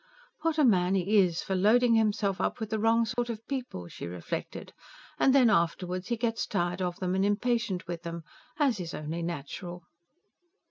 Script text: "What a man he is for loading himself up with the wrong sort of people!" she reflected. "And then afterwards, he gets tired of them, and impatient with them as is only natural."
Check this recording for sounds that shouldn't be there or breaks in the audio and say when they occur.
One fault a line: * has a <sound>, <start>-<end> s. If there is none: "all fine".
* has a dropout, 3.1-3.2 s